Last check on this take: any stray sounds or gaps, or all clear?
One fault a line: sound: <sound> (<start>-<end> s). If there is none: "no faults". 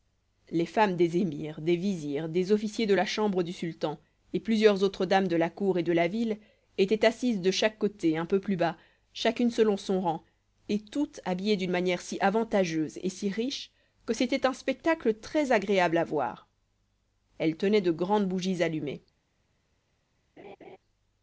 sound: laugh (20.4-20.8 s)